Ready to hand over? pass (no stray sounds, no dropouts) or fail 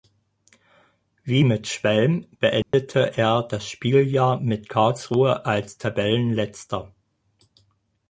fail